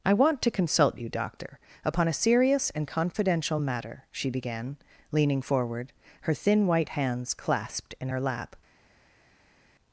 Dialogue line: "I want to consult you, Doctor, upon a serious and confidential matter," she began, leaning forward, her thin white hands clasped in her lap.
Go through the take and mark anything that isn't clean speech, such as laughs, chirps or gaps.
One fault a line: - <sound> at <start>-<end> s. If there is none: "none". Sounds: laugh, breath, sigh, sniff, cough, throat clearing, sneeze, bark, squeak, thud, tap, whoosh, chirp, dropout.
none